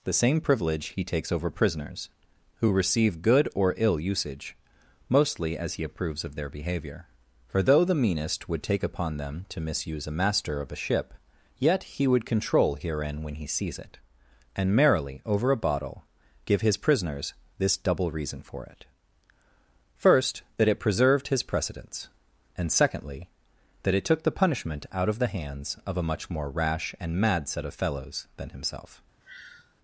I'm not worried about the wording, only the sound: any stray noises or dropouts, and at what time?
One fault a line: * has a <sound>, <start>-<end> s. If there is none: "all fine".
* has a sigh, 29.2-29.8 s